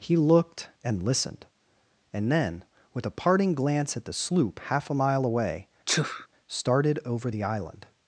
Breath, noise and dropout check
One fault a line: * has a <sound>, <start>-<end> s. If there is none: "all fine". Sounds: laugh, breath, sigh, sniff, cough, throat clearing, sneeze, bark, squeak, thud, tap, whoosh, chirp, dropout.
* has a sneeze, 5.9-6.3 s